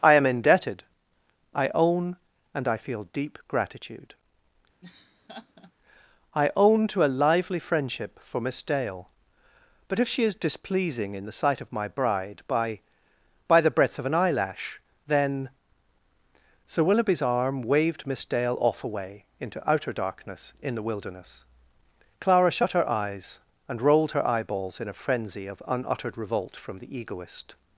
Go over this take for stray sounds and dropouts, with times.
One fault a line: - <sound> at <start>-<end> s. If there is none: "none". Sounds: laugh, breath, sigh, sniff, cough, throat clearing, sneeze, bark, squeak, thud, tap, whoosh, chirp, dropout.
- laugh at 4.8-5.7 s